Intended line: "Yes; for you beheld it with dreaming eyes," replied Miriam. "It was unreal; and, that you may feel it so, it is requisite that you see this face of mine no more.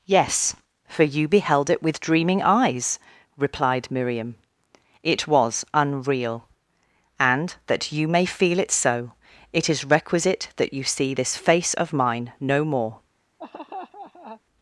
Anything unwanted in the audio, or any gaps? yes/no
yes